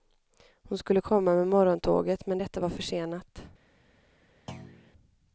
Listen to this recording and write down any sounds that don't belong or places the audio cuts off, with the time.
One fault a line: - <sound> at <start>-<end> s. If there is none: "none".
- thud at 4.5-4.9 s